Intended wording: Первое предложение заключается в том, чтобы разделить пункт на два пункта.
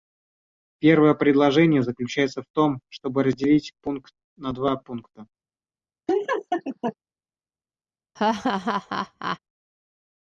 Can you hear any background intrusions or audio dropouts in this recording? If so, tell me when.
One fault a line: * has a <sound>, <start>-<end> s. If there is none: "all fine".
* has a laugh, 6.1-7.0 s
* has a laugh, 8.2-9.4 s